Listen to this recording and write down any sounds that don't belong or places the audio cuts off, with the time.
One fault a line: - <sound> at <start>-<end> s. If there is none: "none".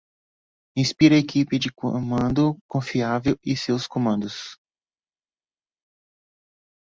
none